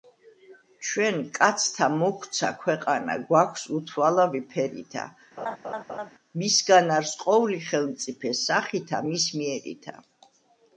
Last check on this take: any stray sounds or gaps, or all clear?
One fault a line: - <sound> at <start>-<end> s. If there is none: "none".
- laugh at 5.4-6.1 s